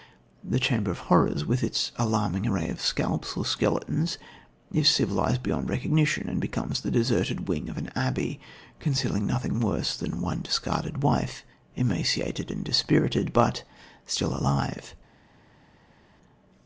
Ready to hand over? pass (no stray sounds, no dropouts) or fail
pass